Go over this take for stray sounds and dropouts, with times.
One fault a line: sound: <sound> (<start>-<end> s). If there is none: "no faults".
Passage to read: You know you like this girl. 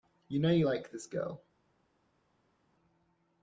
no faults